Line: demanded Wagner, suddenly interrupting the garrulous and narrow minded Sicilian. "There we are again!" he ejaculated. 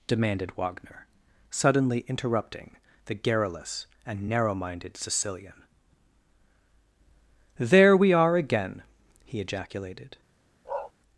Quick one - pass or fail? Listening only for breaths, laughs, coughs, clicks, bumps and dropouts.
fail